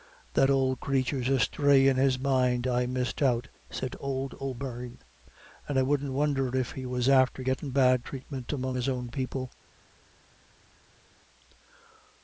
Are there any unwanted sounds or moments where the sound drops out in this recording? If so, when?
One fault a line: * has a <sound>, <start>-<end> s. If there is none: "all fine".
all fine